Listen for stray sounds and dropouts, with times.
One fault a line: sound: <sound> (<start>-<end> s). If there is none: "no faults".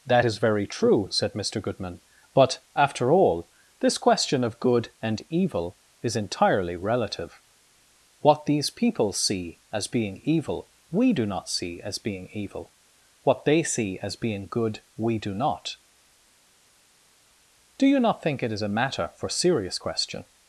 no faults